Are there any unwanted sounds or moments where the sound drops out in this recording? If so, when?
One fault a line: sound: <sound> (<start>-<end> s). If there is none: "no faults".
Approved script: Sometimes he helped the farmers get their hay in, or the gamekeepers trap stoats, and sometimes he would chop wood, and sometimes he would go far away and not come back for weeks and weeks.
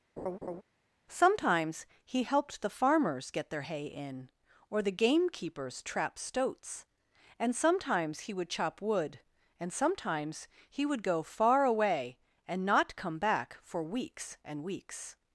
sound: laugh (0.2-0.6 s)